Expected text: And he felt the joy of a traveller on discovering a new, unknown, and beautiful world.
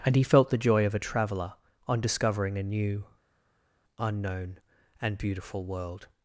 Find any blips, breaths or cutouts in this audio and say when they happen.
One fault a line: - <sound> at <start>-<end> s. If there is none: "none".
none